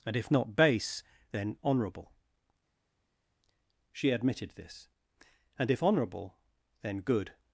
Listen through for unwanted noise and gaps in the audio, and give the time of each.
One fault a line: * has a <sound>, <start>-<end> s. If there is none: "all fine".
all fine